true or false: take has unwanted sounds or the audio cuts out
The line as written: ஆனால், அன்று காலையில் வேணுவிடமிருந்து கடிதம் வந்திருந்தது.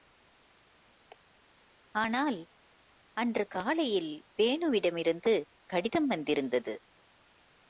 false